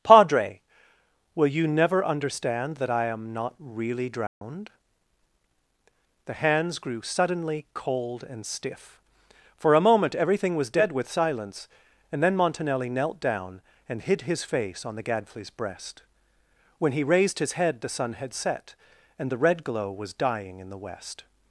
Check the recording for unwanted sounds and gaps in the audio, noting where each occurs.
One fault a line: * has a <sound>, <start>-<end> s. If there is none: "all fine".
* has a dropout, 4.3-4.4 s